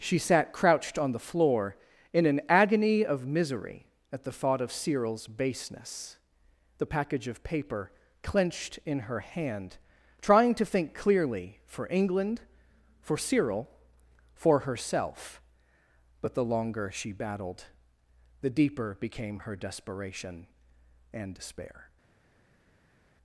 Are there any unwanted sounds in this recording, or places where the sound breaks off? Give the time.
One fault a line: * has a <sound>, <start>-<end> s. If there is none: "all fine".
all fine